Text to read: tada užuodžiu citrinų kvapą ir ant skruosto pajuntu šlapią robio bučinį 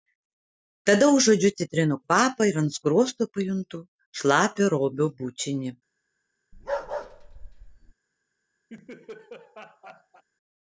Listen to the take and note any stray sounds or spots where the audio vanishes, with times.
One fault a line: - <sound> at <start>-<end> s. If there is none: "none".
- bark at 6.5-7.9 s
- laugh at 8.7-10.2 s